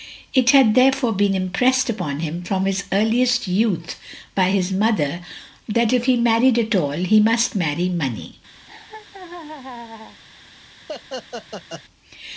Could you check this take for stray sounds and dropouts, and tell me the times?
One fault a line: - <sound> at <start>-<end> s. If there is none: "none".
- laugh at 8.7-10.2 s
- laugh at 10.9-11.8 s